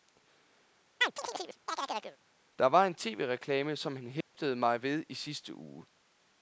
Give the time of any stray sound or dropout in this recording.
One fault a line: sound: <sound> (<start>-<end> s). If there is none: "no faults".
sound: chirp (1.0-2.2 s)
sound: dropout (4.2-4.3 s)